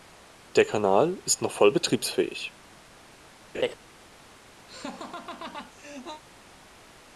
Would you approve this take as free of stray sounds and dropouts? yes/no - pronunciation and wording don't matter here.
no